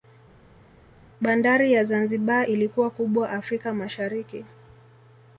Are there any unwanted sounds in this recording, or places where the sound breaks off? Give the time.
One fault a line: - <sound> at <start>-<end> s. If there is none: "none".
none